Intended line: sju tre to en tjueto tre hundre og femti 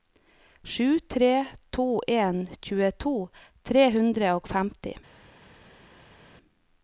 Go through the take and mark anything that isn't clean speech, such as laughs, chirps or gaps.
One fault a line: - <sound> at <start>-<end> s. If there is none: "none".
none